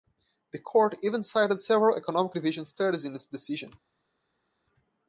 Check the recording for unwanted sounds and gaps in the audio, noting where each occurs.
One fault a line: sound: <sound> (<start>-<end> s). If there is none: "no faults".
no faults